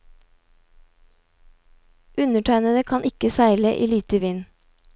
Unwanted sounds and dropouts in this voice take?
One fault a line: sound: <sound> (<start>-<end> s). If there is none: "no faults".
no faults